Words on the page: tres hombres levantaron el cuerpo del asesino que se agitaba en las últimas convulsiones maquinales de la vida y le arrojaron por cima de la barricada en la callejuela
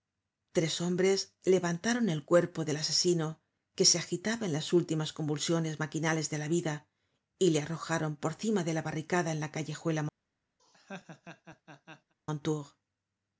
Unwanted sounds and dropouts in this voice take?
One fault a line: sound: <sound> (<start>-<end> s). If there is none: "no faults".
sound: laugh (10.6-12.1 s)